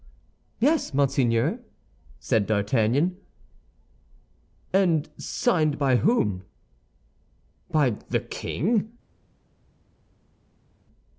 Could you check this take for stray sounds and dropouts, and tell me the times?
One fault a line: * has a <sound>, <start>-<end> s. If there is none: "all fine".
all fine